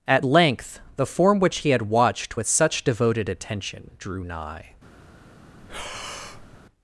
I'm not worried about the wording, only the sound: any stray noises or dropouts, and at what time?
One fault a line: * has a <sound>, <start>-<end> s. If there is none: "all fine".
* has a breath, 5.5-6.6 s